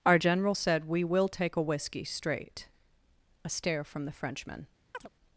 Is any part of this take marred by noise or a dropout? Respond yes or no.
yes